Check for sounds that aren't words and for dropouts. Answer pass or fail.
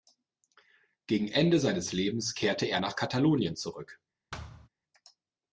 fail